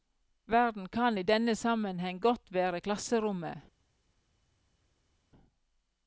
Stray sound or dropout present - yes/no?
no